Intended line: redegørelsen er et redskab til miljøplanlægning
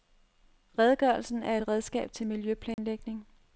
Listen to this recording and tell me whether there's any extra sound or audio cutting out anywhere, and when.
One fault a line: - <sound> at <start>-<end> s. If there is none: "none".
- dropout at 2.7-2.8 s